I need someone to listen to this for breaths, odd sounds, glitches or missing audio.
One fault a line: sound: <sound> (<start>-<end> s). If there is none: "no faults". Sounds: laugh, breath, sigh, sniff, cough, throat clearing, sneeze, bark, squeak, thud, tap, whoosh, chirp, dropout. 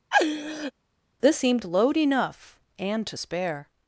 sound: laugh (0.1-0.7 s)